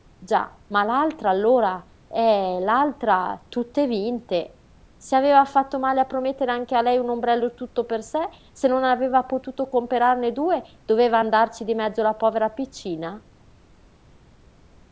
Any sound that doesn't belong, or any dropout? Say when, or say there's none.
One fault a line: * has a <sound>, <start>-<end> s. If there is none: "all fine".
all fine